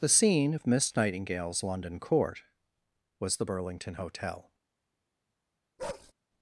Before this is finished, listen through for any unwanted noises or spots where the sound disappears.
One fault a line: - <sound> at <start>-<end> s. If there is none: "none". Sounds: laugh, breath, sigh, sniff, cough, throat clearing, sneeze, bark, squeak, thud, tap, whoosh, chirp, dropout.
- bark at 5.8-6.1 s